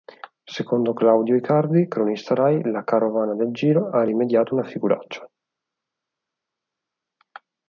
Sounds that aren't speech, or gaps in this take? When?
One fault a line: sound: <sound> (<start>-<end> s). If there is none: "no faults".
no faults